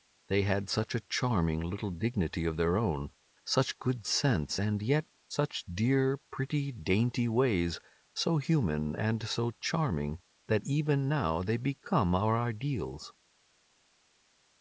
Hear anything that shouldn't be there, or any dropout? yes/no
no